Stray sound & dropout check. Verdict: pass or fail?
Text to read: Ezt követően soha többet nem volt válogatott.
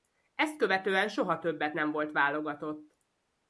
pass